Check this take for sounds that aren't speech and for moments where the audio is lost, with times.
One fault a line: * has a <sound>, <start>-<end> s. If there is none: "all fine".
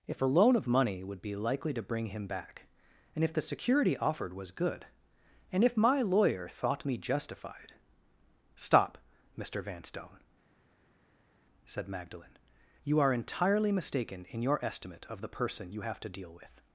all fine